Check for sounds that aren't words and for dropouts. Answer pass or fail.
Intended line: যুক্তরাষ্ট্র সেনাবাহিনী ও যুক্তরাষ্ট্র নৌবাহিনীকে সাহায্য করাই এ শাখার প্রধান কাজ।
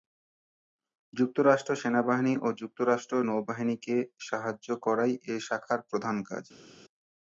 pass